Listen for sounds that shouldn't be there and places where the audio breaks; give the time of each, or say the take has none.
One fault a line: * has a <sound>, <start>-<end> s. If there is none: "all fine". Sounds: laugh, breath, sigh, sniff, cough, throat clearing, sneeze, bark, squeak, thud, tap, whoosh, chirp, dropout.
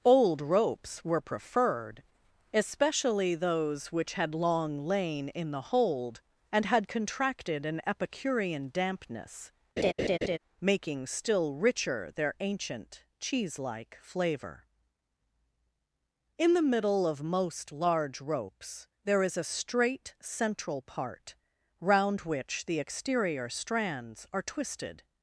* has a laugh, 9.8-10.4 s